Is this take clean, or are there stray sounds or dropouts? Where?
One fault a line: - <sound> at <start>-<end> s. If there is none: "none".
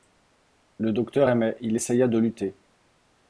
none